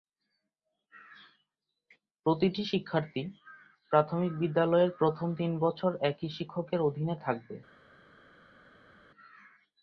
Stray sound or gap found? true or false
false